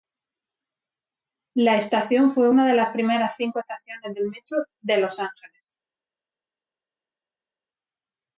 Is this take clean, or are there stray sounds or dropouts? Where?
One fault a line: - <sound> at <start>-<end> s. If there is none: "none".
none